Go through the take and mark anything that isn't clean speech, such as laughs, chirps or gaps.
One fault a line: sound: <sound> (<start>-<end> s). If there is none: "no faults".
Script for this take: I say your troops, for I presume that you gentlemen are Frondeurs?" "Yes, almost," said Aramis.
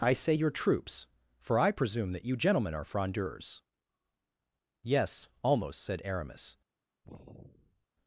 sound: sigh (7.0-7.9 s)